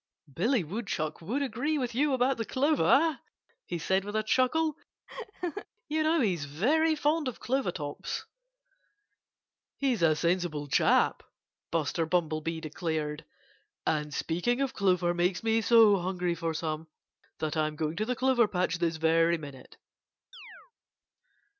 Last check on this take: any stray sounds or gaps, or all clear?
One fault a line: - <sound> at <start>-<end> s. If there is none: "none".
- laugh at 5.1-5.7 s
- chirp at 20.3-20.7 s